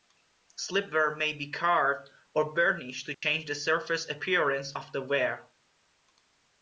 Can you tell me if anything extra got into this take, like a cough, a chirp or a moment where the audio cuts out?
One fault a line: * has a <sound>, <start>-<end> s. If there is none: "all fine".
* has a dropout, 3.1-3.2 s